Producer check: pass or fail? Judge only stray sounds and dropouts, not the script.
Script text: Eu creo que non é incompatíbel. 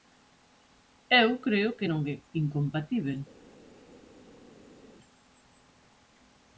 pass